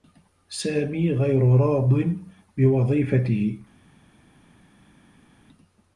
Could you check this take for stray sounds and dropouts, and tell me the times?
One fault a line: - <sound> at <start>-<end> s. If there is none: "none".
none